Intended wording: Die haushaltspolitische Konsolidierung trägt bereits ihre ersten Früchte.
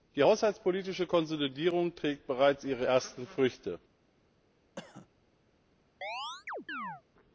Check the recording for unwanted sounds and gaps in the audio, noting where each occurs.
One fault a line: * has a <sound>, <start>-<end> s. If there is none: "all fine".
* has a cough, 4.8-5.1 s
* has a chirp, 6.0-7.0 s